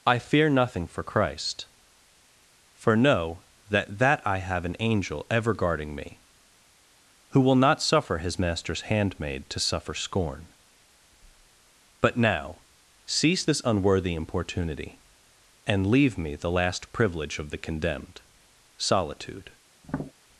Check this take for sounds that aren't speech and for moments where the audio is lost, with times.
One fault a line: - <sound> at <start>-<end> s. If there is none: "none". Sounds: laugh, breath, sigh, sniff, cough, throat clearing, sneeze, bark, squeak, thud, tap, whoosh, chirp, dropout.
- tap at 19.8-20.1 s